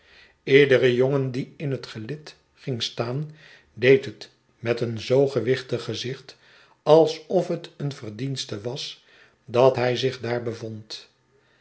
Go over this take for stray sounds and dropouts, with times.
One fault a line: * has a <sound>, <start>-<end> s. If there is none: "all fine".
all fine